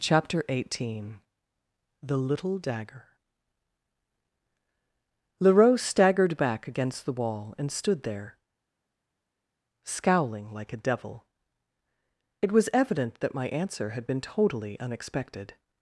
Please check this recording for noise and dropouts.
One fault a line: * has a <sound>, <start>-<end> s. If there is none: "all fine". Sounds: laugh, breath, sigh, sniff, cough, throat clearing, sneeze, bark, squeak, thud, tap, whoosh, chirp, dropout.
all fine